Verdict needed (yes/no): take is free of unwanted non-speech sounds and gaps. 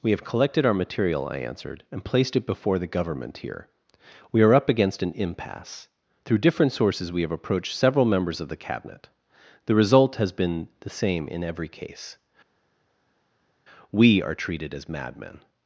yes